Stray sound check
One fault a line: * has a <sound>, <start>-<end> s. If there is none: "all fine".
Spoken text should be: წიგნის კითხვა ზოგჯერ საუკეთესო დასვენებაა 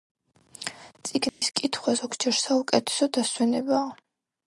* has a dropout, 1.3-1.4 s